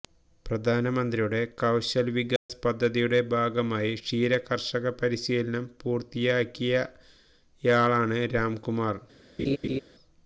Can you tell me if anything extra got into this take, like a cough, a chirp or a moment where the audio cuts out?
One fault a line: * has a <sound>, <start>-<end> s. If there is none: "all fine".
* has a dropout, 2.4-2.5 s
* has a laugh, 9.4-9.8 s